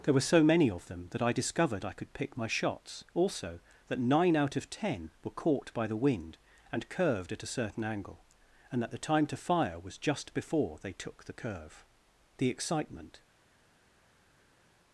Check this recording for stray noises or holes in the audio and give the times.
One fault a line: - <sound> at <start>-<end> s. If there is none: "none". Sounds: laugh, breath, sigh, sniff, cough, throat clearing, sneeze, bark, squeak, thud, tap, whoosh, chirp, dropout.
none